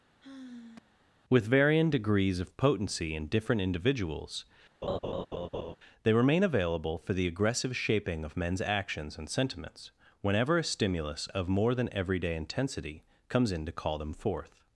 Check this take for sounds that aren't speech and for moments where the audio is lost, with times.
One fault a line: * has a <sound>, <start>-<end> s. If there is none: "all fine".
* has a sigh, 0.2-1.0 s
* has a laugh, 4.8-5.8 s